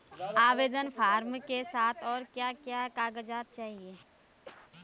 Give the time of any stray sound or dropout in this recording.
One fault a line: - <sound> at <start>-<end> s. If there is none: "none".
- cough at 4.4-4.7 s